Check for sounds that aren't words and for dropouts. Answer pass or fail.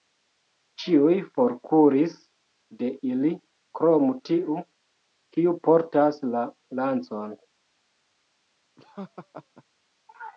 fail